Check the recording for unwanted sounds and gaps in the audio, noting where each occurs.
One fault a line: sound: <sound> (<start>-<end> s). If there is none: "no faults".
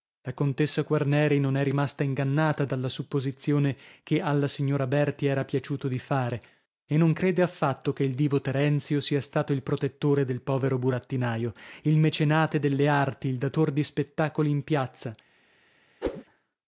sound: whoosh (16.0-16.2 s)